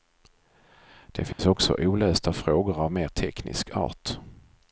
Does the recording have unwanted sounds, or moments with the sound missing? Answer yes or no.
yes